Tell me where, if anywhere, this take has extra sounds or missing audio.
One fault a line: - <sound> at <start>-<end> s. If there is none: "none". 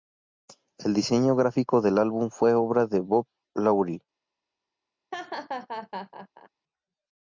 - laugh at 5.1-6.5 s